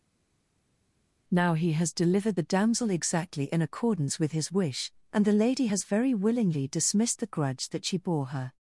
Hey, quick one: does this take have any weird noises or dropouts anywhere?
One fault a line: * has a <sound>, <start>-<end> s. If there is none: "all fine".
all fine